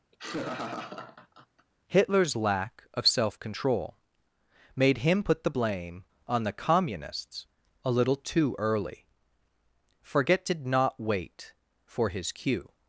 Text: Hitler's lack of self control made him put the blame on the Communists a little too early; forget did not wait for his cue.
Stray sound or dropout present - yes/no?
yes